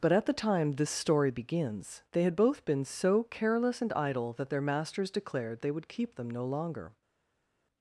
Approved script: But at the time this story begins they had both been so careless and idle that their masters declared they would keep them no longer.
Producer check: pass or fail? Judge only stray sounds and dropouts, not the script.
pass